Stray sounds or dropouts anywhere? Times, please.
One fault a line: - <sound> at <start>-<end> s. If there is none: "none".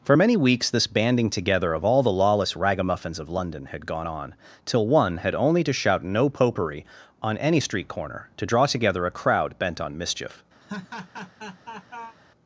- laugh at 10.6-12.2 s